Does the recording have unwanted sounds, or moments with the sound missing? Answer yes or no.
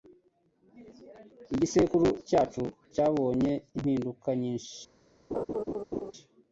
yes